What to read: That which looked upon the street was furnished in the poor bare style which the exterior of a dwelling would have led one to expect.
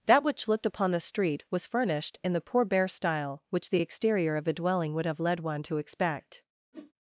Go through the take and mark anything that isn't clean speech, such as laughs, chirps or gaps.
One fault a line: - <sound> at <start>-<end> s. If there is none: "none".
- whoosh at 6.7-6.9 s